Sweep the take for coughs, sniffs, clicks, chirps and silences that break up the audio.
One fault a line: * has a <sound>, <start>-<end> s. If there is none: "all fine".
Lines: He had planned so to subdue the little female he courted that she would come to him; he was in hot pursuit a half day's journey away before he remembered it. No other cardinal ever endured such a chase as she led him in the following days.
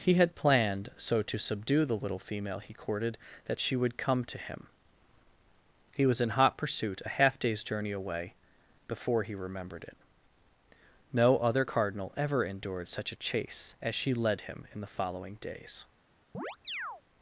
* has a chirp, 16.3-17.0 s